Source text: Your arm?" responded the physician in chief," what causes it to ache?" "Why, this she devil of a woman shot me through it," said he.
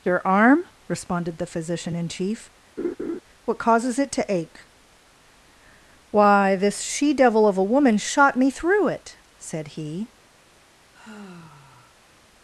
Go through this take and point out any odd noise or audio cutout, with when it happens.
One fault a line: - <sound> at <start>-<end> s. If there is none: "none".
- laugh at 2.8-3.2 s
- sigh at 10.9-12.2 s